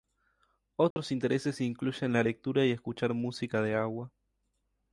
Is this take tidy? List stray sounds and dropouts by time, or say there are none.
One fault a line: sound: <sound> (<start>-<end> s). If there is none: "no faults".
sound: dropout (0.9-1.0 s)